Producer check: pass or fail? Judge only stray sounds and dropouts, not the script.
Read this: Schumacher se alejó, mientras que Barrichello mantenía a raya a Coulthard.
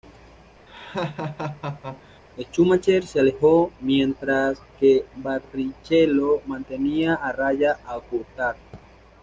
fail